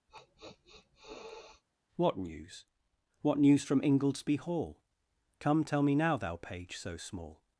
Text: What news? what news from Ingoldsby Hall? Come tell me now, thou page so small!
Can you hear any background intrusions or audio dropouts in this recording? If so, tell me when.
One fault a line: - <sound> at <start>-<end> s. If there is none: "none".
- sniff at 0.1-1.6 s